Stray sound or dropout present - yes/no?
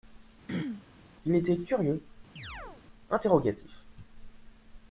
yes